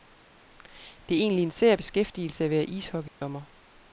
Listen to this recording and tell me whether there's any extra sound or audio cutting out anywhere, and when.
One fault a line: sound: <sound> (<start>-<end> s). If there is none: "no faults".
sound: dropout (3.1-3.2 s)